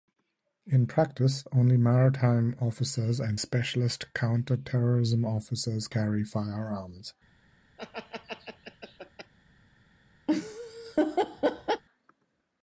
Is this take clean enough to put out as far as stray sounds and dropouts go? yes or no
no